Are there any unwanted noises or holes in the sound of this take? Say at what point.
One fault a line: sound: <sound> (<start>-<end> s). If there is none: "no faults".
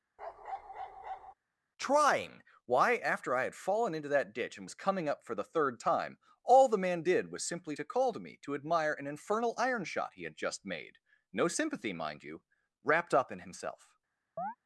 sound: bark (0.2-1.3 s)
sound: chirp (14.4-14.6 s)